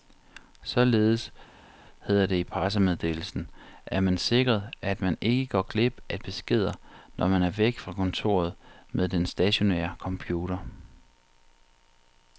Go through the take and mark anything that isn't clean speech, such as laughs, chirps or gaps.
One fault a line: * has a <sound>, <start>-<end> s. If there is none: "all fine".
all fine